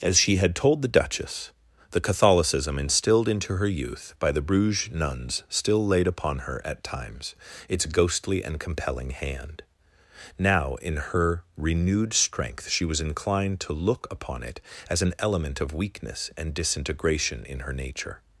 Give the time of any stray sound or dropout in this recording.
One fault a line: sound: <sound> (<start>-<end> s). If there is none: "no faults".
no faults